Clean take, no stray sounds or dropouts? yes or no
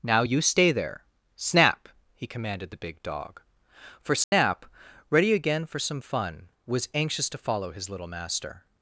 no